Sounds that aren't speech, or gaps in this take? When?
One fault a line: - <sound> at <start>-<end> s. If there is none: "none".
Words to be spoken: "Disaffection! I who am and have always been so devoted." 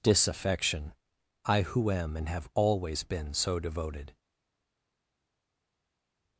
none